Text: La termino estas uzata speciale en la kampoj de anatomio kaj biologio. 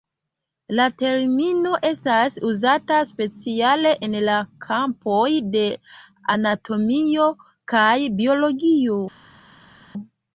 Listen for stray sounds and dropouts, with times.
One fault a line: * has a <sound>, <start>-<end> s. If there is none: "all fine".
all fine